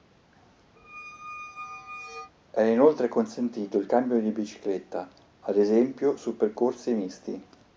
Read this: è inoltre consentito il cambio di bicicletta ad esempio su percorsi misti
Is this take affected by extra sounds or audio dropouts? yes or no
yes